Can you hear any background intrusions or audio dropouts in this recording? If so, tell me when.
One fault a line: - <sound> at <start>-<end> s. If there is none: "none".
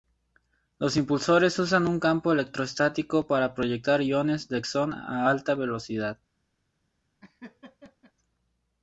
- laugh at 7.2-8.1 s